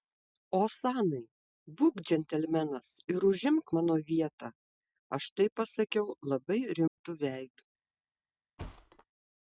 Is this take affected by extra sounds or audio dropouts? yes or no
yes